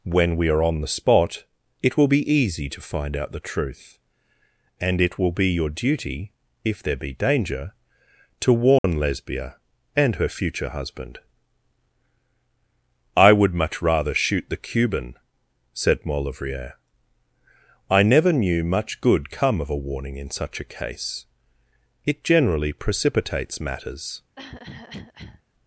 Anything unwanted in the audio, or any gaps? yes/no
yes